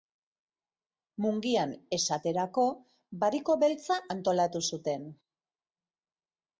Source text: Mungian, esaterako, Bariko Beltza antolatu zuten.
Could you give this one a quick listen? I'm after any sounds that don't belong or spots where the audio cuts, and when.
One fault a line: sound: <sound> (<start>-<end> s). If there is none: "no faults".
no faults